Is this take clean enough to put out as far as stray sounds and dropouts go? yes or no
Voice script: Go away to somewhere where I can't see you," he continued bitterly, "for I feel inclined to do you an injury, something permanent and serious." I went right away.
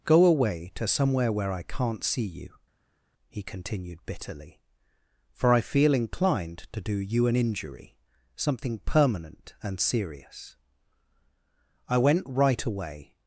yes